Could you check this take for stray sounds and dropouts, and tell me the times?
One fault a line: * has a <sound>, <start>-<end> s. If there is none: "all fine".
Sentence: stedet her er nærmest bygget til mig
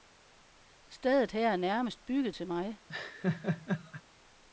* has a laugh, 2.9-4.0 s